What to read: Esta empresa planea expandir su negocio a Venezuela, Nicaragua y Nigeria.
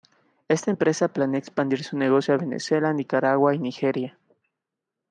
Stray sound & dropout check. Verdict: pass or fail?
pass